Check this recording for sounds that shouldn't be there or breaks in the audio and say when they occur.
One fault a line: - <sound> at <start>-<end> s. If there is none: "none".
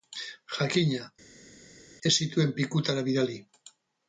none